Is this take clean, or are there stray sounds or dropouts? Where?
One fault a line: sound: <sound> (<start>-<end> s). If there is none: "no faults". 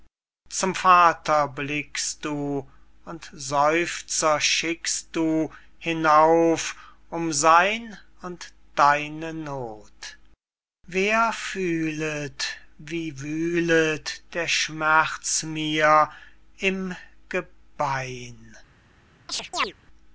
sound: chirp (19.3-19.7 s)